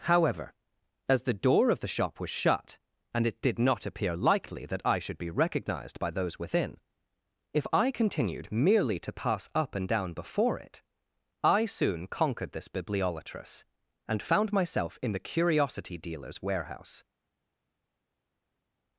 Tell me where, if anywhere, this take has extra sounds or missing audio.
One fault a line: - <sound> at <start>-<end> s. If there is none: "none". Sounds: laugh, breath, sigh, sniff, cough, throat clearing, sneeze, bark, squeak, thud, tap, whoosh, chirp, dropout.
none